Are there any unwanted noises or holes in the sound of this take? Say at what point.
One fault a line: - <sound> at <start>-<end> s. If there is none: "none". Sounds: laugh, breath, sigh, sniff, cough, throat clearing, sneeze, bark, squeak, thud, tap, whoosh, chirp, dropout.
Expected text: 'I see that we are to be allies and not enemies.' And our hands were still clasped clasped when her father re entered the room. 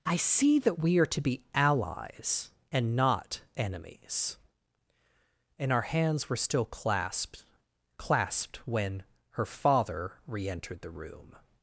none